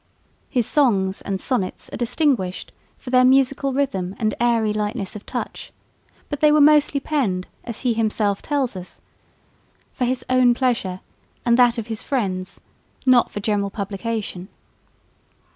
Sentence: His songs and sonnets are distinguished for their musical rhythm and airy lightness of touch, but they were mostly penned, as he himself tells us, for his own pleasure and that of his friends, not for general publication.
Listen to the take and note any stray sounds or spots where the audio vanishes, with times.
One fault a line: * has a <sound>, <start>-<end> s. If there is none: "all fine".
all fine